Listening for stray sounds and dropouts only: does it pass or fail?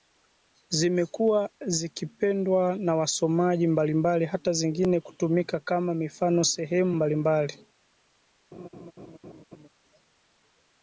fail